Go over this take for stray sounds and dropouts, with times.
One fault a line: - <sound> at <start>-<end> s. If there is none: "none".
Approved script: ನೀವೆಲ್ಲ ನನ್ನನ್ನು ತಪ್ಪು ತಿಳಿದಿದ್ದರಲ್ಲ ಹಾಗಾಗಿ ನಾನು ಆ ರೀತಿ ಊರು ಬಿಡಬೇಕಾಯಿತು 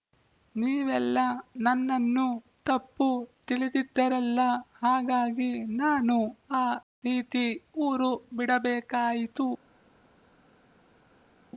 none